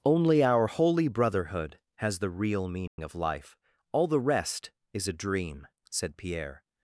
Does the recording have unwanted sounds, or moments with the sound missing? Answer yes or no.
yes